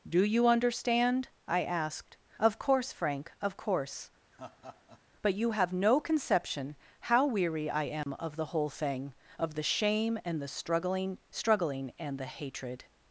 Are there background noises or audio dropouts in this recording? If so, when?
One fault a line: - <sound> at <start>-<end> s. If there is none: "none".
- laugh at 4.3-5.0 s
- dropout at 8.0-8.1 s